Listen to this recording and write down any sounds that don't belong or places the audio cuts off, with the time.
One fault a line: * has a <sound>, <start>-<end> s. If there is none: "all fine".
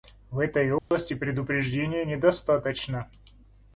* has a dropout, 0.8-0.9 s